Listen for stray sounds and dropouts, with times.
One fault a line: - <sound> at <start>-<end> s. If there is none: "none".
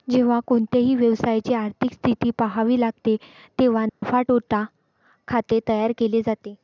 - dropout at 3.9-4.0 s